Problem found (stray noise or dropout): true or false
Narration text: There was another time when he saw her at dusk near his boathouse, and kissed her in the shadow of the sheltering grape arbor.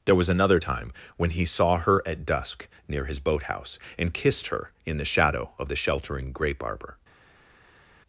false